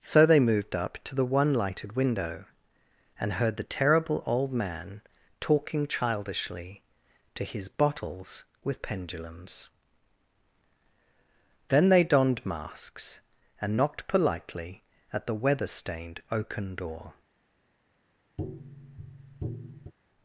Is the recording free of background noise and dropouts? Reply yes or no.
no